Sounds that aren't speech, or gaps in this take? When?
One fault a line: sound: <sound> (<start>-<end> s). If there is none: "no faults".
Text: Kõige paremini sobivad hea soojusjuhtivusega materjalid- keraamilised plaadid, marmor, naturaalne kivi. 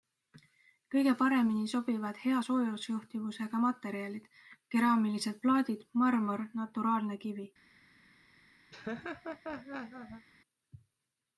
sound: laugh (8.7-10.3 s)